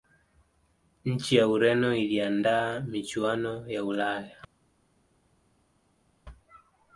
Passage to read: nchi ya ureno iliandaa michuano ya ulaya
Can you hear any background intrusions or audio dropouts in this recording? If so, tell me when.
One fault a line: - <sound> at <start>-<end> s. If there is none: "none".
none